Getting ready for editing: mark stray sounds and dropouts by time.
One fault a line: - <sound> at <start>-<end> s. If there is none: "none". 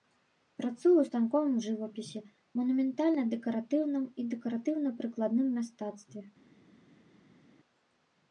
none